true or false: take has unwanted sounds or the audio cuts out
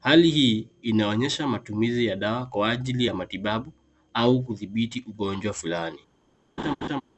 true